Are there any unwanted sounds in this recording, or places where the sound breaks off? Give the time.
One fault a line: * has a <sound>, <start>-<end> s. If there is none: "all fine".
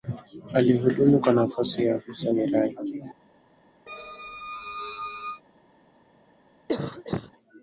* has a squeak, 3.9-5.4 s
* has a cough, 6.7-7.3 s